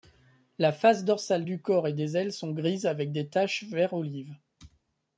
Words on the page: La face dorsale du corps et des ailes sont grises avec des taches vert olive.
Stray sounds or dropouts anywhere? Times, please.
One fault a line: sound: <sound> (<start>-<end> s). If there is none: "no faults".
no faults